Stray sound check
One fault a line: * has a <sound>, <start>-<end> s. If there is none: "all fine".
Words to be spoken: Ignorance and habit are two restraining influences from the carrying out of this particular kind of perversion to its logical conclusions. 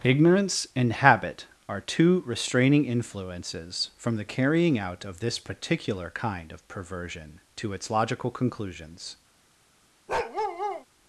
* has a bark, 10.1-10.9 s